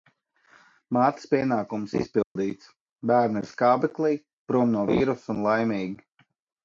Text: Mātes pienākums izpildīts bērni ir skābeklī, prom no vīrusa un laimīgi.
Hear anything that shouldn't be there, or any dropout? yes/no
yes